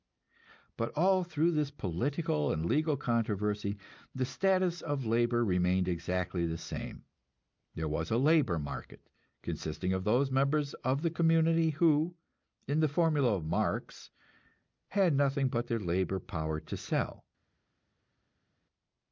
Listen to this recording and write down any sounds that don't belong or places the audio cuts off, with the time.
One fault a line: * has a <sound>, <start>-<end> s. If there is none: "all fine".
all fine